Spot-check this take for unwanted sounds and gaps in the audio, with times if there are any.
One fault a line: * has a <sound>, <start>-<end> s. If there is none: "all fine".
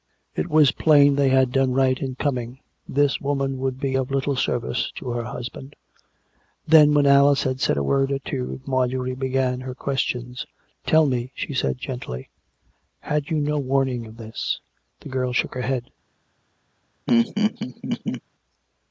* has a laugh, 17.1-18.2 s